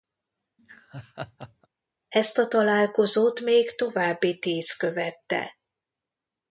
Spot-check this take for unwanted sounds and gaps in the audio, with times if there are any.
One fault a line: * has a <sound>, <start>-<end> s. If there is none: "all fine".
* has a laugh, 0.6-1.7 s